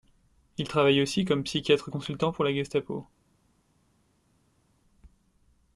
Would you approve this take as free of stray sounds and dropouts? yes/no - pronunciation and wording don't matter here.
yes